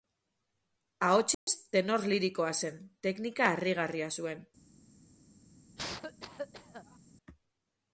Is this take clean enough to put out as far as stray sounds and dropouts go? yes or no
no